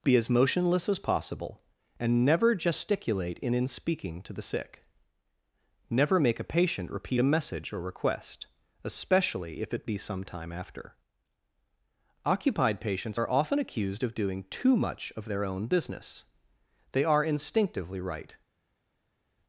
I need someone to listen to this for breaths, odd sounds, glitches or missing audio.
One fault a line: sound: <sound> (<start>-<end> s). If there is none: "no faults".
no faults